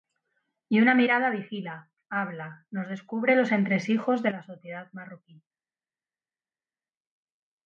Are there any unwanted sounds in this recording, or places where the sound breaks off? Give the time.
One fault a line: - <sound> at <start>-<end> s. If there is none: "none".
none